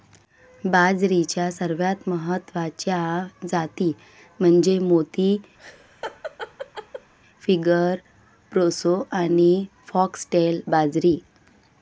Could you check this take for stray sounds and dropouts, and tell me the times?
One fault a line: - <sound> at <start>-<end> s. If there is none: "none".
- laugh at 5.6-7.1 s